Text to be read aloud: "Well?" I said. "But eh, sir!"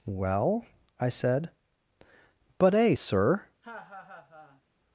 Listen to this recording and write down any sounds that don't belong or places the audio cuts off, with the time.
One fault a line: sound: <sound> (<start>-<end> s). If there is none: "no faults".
sound: laugh (3.6-4.6 s)